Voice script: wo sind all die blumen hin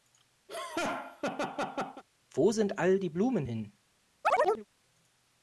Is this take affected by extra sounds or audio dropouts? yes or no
yes